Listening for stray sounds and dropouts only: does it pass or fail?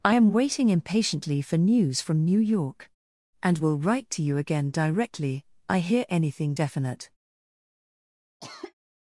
fail